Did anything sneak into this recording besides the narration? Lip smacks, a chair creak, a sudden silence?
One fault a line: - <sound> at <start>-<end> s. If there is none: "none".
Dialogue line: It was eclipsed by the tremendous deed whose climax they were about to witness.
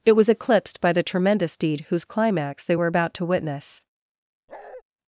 - bark at 4.5-4.8 s